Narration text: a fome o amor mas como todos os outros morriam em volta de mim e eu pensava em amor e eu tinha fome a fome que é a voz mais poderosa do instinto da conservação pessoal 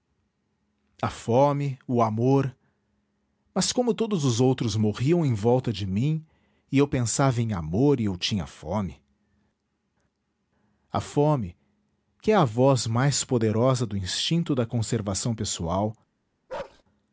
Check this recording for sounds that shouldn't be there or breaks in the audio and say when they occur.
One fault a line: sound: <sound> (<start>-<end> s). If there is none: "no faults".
sound: bark (16.5-16.8 s)